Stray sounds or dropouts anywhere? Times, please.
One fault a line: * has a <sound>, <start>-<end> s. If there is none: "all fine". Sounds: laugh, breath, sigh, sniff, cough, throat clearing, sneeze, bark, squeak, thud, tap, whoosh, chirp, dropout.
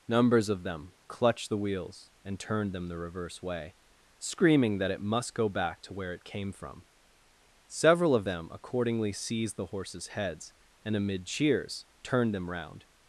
all fine